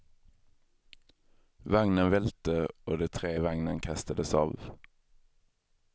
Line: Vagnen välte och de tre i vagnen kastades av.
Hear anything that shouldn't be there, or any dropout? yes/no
no